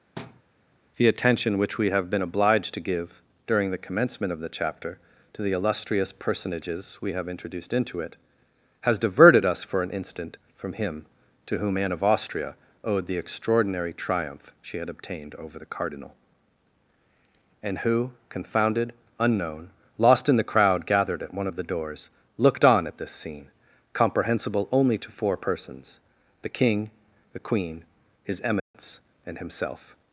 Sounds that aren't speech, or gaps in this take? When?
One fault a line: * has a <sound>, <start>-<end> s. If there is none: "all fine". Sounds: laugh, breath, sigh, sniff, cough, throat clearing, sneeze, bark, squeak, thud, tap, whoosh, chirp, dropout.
* has a thud, 0.2-0.4 s
* has a dropout, 28.6-28.7 s